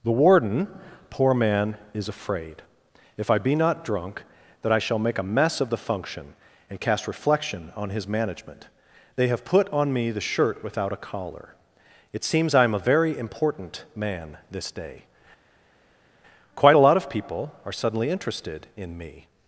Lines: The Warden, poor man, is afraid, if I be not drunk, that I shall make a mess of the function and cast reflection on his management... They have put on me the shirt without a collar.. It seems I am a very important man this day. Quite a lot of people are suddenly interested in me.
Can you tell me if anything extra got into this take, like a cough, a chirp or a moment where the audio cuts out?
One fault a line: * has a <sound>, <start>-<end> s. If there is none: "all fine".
all fine